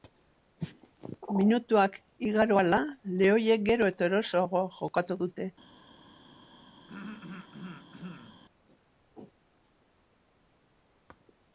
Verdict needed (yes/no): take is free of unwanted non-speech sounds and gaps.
no